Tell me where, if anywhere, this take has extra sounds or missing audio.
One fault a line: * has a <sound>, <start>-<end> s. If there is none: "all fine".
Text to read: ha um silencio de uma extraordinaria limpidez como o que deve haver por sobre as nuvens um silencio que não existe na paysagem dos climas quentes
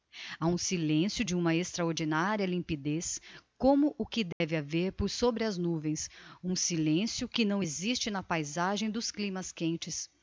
* has a dropout, 4.3-4.4 s